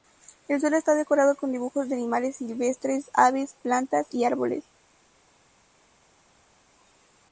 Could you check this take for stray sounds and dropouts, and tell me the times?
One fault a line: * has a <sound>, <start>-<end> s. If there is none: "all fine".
all fine